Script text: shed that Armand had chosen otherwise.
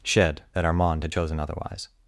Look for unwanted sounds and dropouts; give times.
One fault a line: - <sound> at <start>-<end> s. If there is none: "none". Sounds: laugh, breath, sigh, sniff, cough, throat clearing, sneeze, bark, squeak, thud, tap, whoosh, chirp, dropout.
none